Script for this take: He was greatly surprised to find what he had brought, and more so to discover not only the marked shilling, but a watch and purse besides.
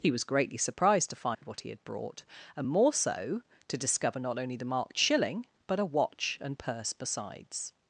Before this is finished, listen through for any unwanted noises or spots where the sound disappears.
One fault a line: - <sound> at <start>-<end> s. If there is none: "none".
- dropout at 1.3-1.4 s